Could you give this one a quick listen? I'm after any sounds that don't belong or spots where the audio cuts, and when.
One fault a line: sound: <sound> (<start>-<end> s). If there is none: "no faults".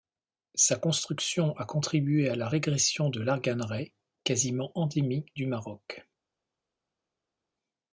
no faults